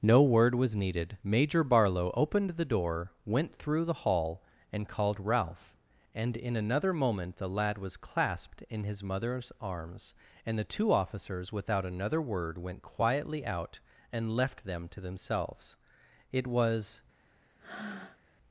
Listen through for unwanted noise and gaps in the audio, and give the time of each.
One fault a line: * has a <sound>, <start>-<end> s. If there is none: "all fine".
* has a breath, 17.6-18.2 s